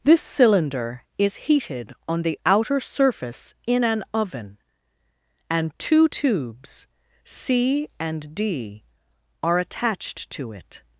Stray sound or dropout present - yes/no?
no